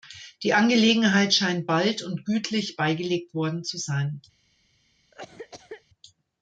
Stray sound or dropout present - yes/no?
yes